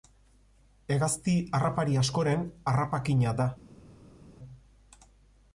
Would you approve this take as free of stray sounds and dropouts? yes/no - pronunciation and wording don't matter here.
yes